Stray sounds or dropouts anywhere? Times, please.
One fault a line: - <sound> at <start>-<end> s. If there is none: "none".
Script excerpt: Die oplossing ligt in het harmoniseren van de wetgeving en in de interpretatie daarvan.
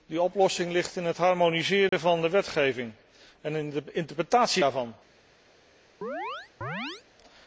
- dropout at 1.9-1.9 s
- chirp at 6.0-7.0 s